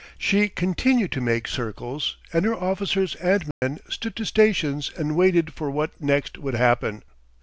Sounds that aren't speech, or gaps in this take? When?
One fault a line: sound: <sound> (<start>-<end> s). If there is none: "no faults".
sound: dropout (3.5-3.6 s)